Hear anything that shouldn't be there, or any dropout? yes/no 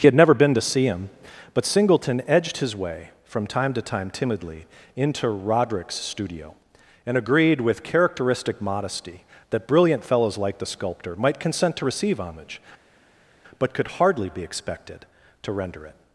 no